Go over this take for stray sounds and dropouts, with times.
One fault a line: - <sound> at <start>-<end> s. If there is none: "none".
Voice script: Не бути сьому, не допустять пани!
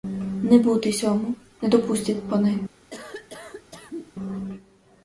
- cough at 2.9-4.1 s